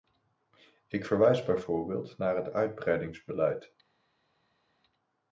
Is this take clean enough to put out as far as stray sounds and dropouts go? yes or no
yes